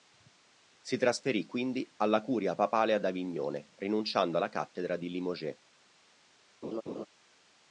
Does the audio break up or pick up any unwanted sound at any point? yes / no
yes